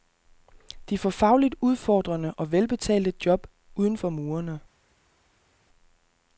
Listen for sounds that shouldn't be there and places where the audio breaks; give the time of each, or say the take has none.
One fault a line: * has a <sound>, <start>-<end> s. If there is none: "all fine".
all fine